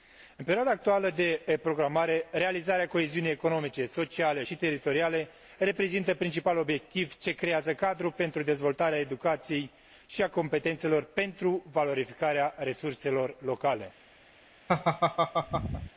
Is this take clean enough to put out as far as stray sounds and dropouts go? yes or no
no